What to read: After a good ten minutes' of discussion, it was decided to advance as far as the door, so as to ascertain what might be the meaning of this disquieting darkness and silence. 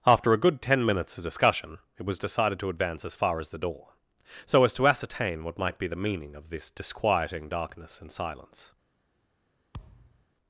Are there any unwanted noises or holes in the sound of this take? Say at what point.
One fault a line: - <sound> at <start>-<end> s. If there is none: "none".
- thud at 9.7-10.3 s